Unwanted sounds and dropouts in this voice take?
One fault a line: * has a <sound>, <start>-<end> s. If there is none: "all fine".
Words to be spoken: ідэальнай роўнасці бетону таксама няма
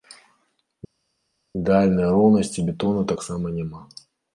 all fine